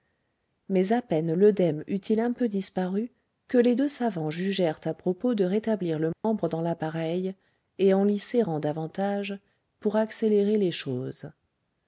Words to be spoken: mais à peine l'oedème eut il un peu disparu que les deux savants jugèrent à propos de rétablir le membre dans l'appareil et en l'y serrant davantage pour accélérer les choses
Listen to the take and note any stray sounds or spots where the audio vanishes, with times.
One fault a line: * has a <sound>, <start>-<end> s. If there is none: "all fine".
* has a dropout, 6.1-6.2 s